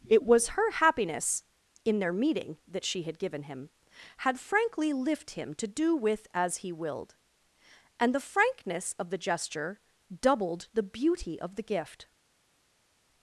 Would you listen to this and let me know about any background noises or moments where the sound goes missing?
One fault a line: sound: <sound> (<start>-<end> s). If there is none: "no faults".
no faults